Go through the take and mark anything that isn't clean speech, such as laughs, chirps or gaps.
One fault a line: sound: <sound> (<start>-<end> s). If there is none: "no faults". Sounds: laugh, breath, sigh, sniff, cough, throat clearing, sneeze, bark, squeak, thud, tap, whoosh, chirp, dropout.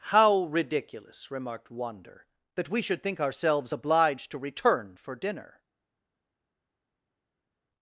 no faults